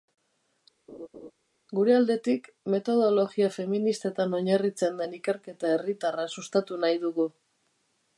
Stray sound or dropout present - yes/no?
yes